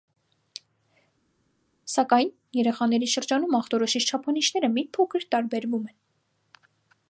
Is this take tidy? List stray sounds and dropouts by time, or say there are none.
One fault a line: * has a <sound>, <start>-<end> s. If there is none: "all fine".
all fine